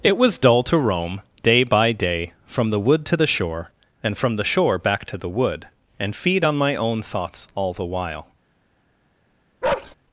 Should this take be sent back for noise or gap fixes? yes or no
yes